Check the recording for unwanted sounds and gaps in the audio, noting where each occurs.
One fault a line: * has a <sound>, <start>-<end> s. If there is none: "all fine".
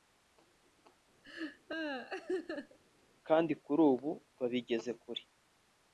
* has a laugh, 1.2-2.8 s